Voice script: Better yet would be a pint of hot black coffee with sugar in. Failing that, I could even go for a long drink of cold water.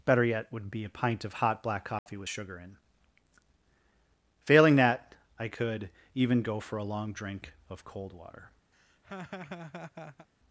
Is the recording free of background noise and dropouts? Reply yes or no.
no